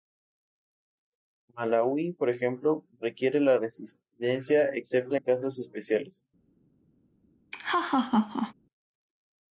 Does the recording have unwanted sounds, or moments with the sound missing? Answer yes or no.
yes